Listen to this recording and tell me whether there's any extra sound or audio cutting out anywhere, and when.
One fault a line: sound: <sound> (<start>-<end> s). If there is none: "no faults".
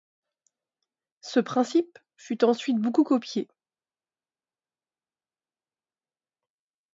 no faults